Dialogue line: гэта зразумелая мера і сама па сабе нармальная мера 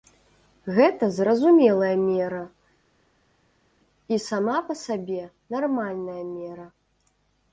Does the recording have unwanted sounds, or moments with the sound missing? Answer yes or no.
no